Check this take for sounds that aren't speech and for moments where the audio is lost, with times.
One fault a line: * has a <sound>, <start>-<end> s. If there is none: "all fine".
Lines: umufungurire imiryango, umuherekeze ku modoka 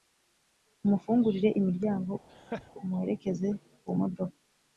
* has a laugh, 2.3-2.7 s